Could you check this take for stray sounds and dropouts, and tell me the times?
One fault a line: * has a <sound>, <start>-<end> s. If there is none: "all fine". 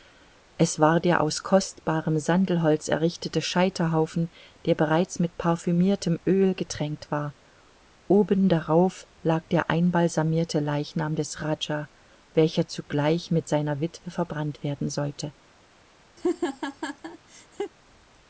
* has a laugh, 16.2-17.7 s